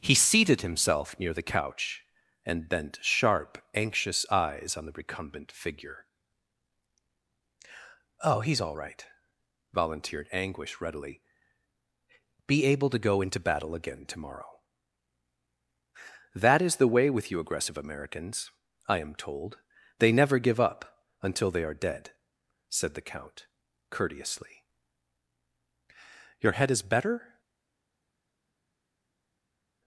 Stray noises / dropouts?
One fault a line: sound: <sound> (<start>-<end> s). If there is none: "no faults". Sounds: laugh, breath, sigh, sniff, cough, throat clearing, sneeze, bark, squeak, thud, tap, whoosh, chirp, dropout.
no faults